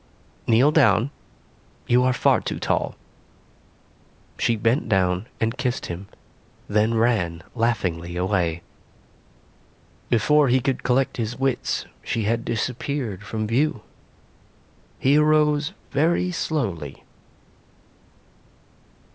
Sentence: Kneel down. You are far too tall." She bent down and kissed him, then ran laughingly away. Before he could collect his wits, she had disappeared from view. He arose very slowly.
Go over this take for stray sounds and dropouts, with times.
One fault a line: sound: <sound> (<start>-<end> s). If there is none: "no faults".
no faults